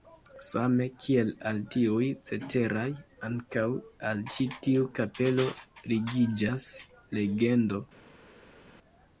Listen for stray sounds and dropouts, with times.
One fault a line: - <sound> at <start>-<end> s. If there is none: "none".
none